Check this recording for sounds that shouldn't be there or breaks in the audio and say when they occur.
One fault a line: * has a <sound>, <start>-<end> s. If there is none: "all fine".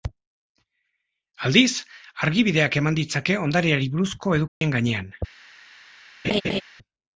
* has a dropout, 4.5-4.6 s
* has a laugh, 6.2-6.6 s